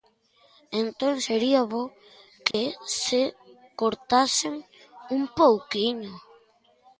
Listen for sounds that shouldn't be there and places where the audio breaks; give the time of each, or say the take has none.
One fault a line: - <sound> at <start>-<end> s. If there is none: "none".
- dropout at 2.5-2.5 s